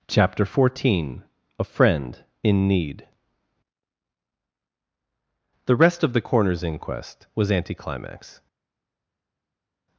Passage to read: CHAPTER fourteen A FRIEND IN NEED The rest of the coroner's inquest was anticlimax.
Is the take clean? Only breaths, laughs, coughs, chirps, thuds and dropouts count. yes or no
yes